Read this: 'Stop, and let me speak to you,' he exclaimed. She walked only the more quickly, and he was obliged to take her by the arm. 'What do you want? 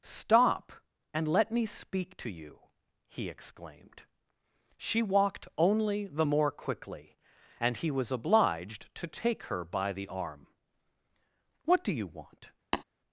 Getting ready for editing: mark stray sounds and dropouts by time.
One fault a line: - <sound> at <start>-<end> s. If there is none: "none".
- tap at 12.7-12.8 s